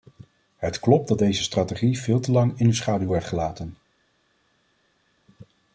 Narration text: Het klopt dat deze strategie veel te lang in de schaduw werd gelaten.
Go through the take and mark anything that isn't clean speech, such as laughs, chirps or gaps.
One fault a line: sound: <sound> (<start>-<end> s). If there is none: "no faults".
no faults